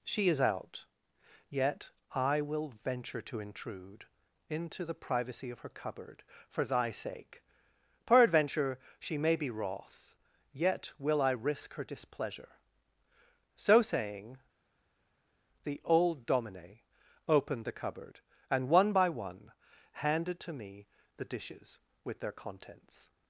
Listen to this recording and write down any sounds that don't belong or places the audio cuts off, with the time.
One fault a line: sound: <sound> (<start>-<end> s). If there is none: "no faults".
no faults